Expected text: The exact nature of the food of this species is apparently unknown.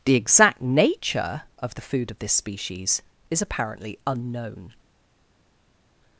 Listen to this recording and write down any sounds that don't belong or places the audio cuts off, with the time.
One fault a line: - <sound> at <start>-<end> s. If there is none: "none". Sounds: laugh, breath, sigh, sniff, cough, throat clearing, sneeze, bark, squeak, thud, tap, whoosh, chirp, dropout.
none